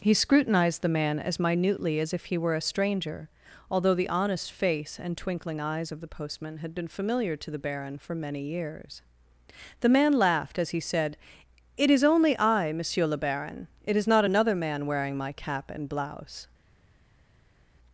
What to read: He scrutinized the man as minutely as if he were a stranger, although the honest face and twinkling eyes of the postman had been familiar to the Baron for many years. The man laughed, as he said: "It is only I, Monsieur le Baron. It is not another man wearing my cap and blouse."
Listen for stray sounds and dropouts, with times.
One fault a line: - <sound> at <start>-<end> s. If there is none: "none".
none